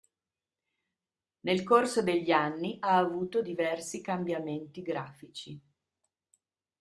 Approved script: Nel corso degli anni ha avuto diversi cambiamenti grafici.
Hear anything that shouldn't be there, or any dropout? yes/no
no